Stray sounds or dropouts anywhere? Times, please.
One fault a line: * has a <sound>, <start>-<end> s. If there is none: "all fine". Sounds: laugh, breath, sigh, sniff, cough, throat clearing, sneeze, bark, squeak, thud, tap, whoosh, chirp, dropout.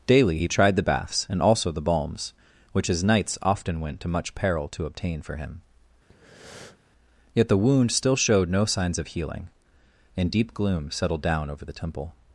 * has a breath, 6.1-6.8 s